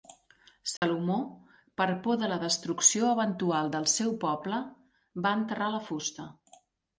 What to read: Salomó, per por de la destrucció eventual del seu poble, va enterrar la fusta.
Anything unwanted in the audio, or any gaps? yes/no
yes